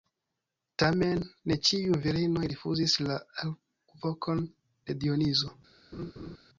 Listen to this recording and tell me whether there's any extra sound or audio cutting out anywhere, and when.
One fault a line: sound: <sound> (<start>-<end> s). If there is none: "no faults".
sound: laugh (5.9-6.4 s)